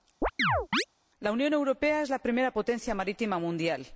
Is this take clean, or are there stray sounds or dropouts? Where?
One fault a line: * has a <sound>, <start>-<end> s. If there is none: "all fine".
* has a chirp, 0.2-0.8 s